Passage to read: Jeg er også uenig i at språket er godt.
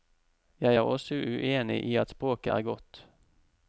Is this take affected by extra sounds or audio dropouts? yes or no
no